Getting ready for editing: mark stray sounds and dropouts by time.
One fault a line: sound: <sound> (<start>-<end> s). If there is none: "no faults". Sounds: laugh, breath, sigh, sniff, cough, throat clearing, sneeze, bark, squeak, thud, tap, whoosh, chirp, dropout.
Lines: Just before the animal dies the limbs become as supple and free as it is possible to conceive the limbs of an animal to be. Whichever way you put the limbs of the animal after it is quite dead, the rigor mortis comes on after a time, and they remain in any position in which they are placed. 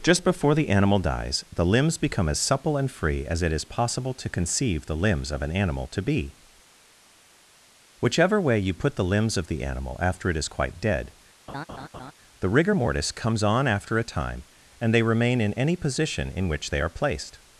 sound: laugh (11.5-12.1 s)